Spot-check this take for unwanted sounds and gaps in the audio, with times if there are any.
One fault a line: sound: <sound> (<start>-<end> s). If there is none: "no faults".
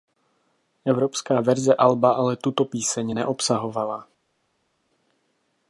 no faults